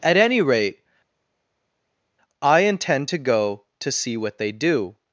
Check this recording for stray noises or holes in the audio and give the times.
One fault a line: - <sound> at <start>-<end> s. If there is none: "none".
none